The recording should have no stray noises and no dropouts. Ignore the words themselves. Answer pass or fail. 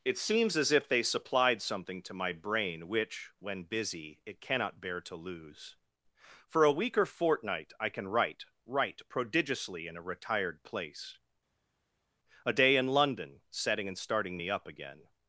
pass